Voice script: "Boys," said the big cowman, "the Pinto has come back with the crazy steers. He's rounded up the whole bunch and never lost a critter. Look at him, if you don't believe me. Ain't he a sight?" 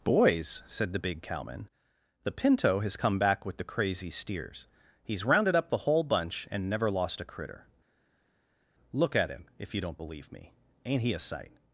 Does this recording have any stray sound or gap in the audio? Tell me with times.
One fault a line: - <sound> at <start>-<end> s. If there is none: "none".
none